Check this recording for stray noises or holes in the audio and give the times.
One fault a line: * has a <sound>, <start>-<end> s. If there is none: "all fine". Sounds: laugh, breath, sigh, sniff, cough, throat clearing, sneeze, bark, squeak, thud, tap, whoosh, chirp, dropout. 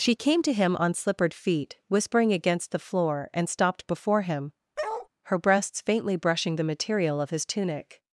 * has a bark, 4.8-5.1 s